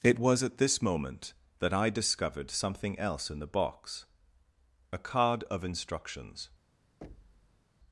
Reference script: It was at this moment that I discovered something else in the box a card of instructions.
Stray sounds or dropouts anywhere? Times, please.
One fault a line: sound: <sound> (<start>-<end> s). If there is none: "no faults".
sound: thud (7.0-7.7 s)